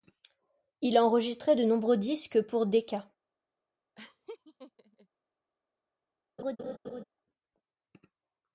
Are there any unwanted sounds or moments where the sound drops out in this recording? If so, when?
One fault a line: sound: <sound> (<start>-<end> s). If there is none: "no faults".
sound: laugh (4.0-5.1 s)
sound: laugh (6.4-7.0 s)